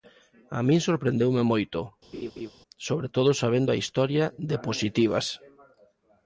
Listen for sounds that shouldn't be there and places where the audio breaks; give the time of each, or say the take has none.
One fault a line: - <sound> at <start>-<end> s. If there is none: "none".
- laugh at 2.1-2.5 s